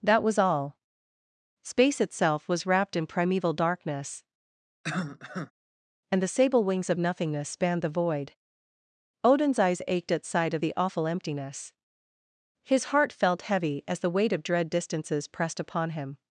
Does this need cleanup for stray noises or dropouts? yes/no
yes